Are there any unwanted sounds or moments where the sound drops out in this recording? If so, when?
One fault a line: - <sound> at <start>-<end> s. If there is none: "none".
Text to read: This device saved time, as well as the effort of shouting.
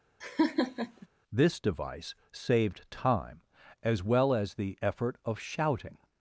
- laugh at 0.2-1.1 s